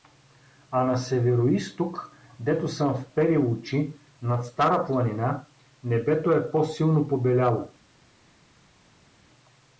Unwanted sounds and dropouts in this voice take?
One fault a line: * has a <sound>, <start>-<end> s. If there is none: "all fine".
all fine